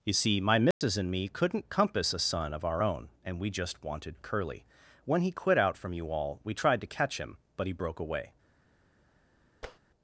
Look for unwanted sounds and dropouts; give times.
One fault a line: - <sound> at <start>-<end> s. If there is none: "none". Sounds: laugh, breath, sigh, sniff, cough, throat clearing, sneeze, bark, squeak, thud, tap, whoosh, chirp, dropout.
- dropout at 0.7-0.8 s
- tap at 9.6-9.8 s